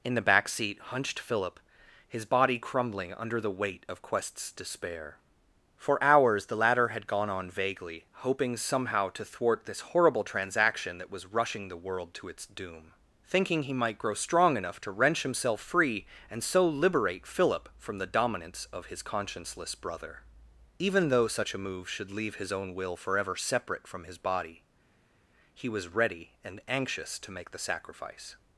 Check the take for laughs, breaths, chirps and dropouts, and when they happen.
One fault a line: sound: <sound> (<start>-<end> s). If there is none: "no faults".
no faults